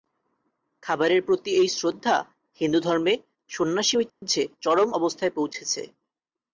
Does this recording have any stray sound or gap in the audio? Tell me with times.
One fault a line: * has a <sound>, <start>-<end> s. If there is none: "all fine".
* has a dropout, 4.1-4.2 s